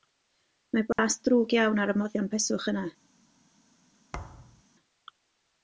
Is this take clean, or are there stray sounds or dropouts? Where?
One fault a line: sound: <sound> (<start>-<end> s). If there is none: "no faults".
sound: dropout (0.9-1.0 s)
sound: thud (4.1-4.6 s)